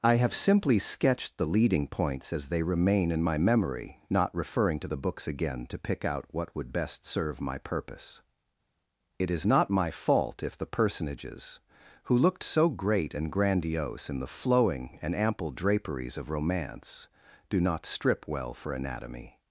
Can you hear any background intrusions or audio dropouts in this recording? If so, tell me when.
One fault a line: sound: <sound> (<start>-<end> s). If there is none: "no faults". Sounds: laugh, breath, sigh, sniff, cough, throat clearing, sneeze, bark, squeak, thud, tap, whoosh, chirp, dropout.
no faults